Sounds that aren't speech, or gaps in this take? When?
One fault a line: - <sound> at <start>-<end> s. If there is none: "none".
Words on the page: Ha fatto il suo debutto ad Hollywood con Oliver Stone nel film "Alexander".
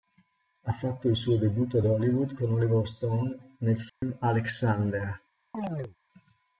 - dropout at 3.9-4.0 s
- chirp at 5.5-6.0 s